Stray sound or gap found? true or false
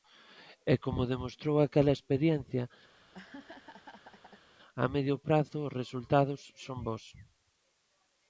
true